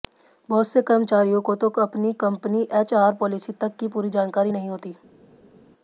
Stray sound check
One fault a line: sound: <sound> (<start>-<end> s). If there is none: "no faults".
no faults